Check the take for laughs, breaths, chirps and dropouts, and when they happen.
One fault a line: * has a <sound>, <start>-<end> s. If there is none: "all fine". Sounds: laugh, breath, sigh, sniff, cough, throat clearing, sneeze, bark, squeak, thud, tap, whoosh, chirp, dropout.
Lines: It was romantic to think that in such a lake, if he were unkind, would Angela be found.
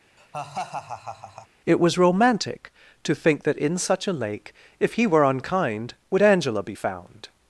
* has a laugh, 0.2-1.5 s